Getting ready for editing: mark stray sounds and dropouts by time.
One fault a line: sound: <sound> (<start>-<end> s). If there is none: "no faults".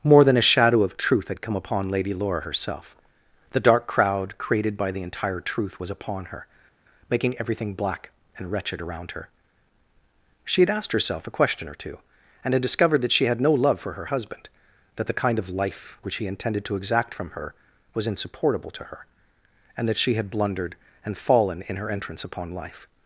no faults